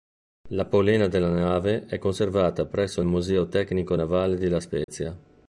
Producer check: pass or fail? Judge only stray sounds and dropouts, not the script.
fail